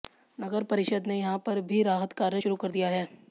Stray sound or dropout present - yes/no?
no